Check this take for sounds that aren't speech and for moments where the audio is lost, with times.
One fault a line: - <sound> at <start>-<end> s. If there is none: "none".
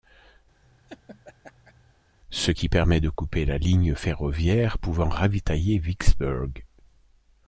- laugh at 0.6-1.9 s